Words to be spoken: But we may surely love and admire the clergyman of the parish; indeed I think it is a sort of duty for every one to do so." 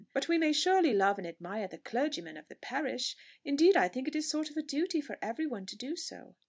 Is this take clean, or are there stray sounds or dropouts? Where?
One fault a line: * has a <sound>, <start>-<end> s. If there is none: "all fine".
all fine